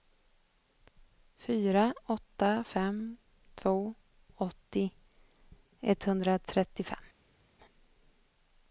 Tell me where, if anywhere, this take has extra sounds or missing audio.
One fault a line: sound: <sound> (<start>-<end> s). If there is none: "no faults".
no faults